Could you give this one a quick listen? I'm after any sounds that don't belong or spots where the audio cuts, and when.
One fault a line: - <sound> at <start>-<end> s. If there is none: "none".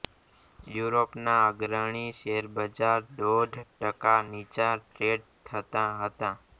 none